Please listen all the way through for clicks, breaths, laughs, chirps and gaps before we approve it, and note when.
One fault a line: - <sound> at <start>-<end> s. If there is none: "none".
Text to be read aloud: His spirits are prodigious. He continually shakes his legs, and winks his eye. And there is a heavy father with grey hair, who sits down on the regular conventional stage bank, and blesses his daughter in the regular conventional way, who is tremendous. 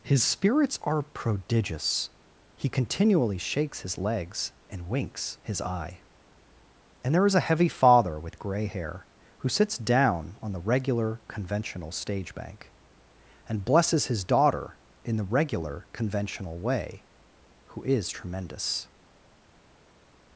none